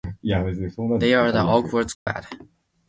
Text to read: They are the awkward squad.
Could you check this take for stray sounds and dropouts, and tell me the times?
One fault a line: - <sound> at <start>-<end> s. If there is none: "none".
- dropout at 1.9-2.1 s